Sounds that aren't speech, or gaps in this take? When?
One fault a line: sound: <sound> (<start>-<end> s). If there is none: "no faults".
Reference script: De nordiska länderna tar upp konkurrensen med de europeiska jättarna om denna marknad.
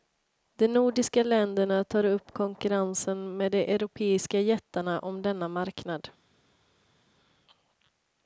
no faults